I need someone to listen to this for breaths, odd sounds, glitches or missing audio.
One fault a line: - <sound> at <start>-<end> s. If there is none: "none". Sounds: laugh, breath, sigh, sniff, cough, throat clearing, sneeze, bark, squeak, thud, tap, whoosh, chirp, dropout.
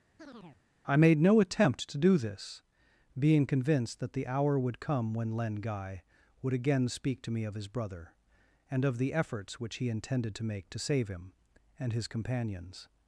- chirp at 0.2-0.6 s